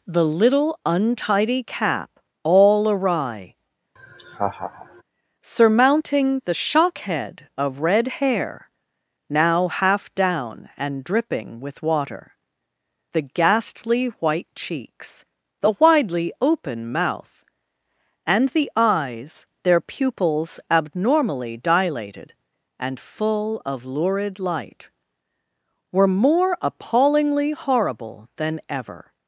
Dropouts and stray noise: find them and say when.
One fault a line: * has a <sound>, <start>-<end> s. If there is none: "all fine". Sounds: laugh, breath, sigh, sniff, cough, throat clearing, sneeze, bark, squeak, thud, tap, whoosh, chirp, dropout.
* has a laugh, 4.0-5.0 s